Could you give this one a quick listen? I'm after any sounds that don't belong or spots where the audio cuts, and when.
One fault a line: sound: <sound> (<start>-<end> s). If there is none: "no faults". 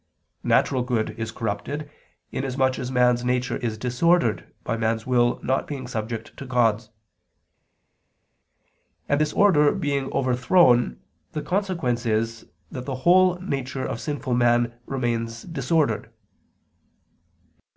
no faults